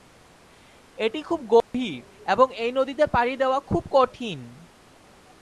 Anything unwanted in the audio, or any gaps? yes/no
yes